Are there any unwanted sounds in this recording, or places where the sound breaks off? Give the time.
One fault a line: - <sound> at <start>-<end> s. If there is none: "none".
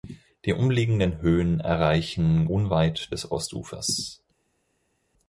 none